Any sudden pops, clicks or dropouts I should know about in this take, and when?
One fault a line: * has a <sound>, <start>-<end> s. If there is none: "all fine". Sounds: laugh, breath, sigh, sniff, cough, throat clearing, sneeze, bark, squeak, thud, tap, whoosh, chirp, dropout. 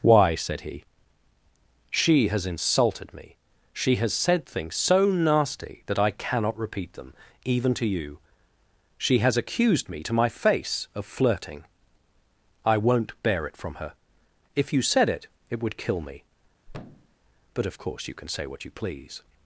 * has a thud, 16.7-17.2 s